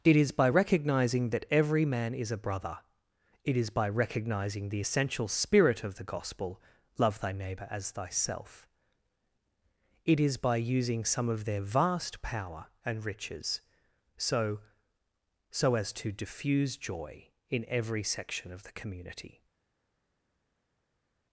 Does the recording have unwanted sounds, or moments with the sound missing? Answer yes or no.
no